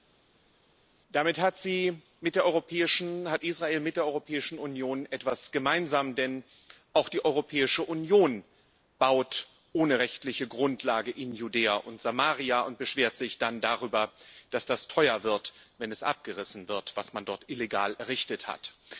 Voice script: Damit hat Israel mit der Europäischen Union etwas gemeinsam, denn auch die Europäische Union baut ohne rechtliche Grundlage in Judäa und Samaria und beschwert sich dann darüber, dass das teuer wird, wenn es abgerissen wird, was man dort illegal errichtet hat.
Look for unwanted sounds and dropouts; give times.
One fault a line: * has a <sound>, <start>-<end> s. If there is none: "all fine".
all fine